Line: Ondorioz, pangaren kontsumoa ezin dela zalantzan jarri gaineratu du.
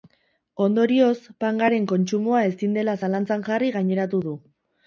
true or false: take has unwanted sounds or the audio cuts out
false